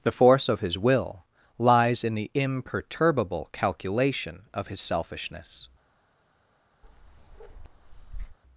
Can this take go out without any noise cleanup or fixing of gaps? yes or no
no